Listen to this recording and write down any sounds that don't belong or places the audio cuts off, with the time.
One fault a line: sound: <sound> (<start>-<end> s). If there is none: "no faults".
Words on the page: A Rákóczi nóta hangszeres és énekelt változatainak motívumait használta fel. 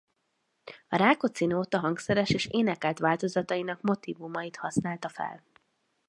no faults